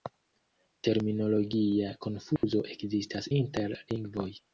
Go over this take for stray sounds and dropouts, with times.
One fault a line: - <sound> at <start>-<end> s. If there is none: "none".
- dropout at 2.4-2.4 s